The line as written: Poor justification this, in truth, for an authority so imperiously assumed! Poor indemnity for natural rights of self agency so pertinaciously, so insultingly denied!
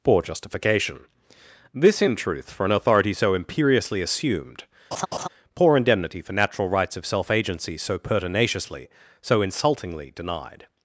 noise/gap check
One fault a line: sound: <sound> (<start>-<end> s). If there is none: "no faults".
sound: laugh (4.9-5.3 s)